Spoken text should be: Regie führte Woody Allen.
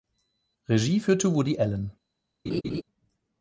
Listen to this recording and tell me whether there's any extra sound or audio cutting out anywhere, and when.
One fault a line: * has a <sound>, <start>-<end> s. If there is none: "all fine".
* has a laugh, 2.5-2.8 s